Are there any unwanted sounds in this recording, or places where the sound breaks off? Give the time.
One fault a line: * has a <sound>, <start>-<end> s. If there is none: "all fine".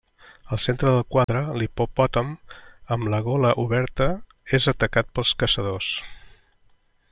* has a dropout, 1.2-1.3 s